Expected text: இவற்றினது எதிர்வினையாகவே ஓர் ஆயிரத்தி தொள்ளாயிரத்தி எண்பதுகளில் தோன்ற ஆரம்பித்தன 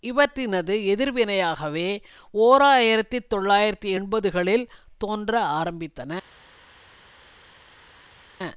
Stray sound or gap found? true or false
false